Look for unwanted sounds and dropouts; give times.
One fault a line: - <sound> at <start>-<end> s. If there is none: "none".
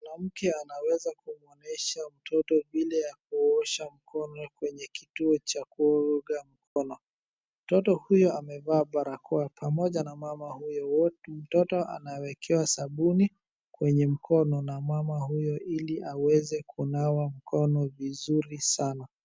- dropout at 6.7-6.8 s